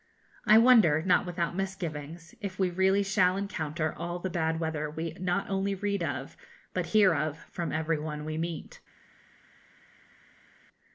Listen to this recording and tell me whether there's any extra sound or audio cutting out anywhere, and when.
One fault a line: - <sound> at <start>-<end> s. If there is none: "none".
none